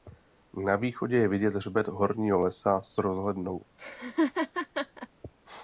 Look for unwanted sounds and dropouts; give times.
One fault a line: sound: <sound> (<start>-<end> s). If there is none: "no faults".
sound: laugh (3.8-5.1 s)